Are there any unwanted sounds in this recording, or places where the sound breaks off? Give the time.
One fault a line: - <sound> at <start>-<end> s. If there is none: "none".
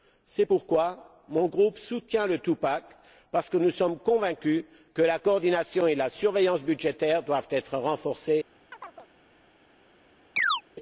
- chirp at 8.7-9.1 s
- chirp at 10.4-10.6 s